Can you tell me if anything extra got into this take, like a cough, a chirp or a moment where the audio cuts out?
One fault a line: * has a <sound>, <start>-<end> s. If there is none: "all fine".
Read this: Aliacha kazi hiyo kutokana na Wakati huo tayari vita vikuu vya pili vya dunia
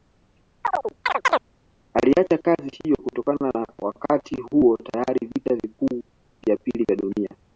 * has a chirp, 0.6-1.4 s